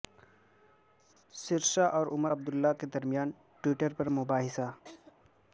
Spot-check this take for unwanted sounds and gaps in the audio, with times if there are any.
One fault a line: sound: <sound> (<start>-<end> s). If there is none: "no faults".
sound: laugh (4.8-5.2 s)